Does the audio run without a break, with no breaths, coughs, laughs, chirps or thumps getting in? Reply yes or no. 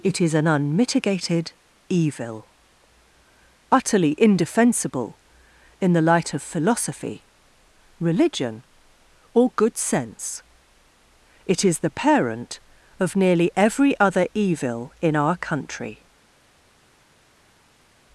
yes